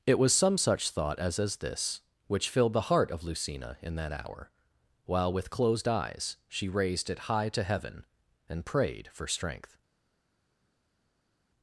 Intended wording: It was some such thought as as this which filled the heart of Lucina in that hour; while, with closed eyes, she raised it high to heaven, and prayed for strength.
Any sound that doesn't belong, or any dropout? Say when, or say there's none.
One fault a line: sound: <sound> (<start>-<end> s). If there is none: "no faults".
no faults